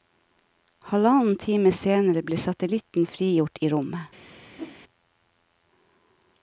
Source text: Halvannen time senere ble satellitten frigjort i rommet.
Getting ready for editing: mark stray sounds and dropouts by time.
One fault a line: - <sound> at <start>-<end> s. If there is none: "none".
- whoosh at 4.6-4.8 s